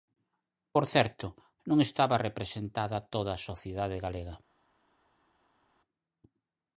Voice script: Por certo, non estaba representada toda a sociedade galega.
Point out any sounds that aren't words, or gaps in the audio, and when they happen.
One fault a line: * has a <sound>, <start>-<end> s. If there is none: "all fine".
all fine